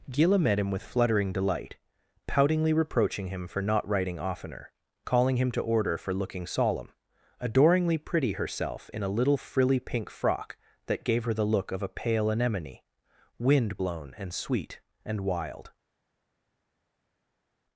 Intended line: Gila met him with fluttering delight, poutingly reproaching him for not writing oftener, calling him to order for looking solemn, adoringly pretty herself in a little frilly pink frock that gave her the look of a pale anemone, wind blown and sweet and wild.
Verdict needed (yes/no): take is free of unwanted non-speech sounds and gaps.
yes